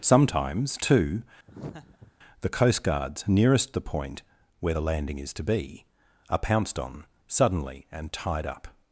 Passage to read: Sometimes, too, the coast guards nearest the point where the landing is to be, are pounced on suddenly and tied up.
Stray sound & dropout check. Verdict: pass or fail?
fail